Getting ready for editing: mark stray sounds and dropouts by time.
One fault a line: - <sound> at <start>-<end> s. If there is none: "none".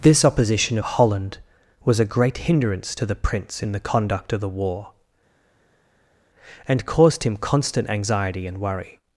none